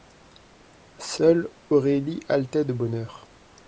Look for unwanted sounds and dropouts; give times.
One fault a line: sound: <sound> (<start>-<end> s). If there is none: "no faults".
no faults